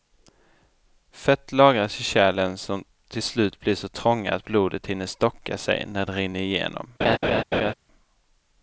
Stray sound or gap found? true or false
true